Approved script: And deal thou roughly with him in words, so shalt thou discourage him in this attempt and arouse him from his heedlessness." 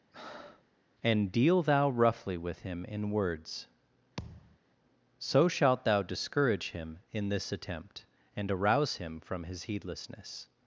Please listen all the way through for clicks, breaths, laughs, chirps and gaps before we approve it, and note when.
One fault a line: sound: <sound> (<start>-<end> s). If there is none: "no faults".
sound: breath (0.1-0.7 s)
sound: thud (4.2-4.6 s)